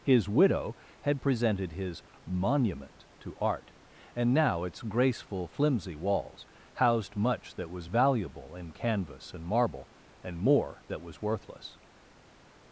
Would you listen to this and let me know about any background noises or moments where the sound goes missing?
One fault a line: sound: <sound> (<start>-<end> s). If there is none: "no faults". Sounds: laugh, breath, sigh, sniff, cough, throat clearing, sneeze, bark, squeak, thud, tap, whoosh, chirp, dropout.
no faults